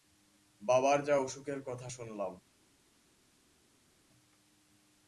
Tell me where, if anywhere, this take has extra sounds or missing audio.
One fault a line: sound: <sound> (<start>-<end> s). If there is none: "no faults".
no faults